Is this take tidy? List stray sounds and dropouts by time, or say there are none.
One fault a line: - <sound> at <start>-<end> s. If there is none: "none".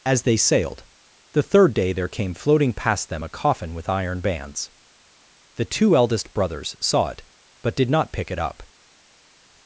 none